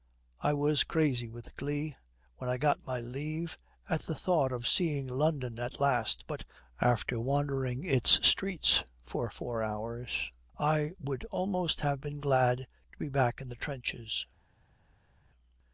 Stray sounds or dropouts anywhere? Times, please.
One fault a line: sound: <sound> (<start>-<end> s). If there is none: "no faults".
no faults